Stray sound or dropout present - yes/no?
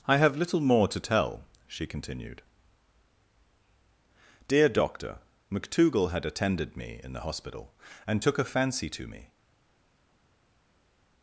no